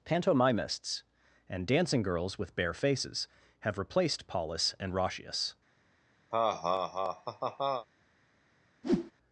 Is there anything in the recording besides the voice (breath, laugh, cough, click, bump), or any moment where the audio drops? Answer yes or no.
yes